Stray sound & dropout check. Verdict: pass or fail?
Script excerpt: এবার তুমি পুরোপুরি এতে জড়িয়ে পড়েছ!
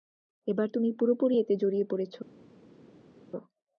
pass